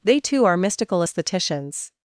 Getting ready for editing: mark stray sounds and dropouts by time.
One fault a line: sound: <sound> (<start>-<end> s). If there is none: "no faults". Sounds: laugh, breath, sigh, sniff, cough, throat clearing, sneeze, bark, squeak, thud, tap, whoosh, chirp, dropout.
no faults